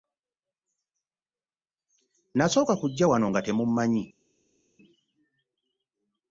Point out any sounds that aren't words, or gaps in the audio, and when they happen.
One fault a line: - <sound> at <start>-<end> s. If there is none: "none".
none